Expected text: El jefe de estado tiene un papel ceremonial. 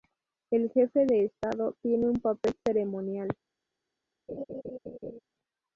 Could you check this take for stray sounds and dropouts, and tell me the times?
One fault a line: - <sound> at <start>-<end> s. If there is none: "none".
- laugh at 4.3-5.2 s